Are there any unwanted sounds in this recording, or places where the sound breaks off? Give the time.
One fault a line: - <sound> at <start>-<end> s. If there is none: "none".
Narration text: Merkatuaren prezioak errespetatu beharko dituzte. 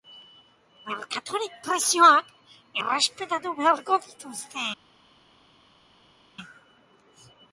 none